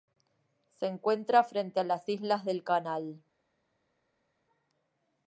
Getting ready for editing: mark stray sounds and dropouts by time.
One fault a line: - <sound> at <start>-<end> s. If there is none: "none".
none